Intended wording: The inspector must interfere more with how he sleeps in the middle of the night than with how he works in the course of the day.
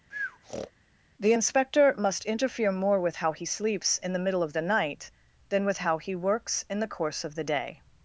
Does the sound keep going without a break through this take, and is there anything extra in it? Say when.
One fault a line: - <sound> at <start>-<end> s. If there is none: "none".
- breath at 0.1-0.7 s